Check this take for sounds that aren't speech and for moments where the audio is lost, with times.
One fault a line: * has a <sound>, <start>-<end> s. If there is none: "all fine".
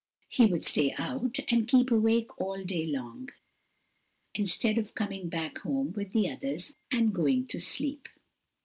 all fine